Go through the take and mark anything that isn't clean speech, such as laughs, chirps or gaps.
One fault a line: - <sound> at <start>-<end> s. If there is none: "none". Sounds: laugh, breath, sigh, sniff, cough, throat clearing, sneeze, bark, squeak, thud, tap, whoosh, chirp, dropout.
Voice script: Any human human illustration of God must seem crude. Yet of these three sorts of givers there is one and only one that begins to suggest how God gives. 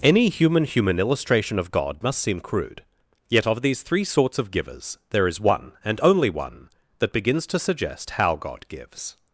none